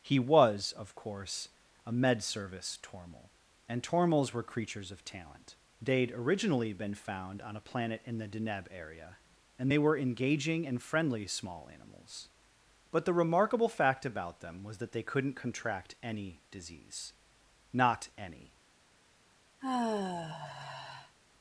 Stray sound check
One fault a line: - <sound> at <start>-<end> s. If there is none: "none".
- sigh at 19.6-21.2 s